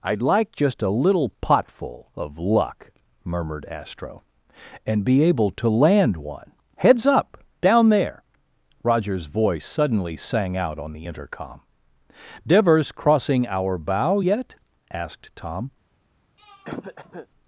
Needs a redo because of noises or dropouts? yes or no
yes